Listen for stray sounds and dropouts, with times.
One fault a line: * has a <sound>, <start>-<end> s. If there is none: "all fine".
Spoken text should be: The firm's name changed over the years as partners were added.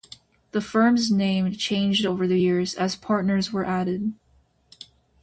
all fine